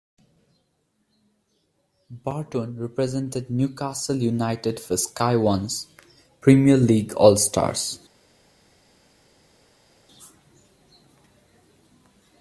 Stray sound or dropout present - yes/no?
no